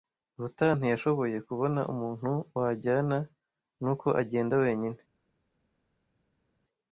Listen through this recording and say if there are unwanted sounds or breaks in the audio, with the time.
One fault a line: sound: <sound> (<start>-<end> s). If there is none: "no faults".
no faults